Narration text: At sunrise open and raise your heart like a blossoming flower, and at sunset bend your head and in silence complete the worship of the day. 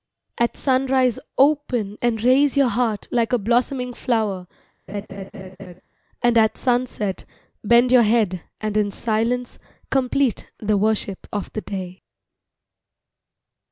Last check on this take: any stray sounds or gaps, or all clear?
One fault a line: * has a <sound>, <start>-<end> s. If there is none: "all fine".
* has a laugh, 4.9-5.8 s